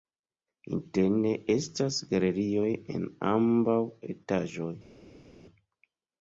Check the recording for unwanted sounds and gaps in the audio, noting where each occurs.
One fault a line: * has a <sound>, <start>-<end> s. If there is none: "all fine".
all fine